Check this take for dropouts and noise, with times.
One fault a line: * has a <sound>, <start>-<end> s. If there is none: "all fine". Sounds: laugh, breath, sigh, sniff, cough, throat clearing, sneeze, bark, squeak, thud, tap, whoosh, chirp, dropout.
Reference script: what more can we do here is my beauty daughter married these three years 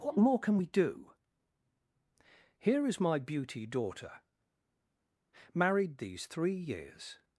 all fine